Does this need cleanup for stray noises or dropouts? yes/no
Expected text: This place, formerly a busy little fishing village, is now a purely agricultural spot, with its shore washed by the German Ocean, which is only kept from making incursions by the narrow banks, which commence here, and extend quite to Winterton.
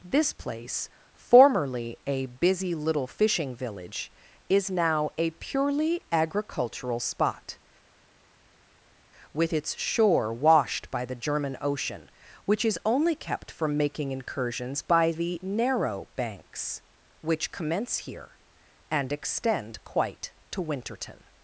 no